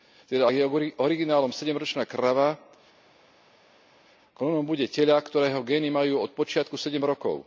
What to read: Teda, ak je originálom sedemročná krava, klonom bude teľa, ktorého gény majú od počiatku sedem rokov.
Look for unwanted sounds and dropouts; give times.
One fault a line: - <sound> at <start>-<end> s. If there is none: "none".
none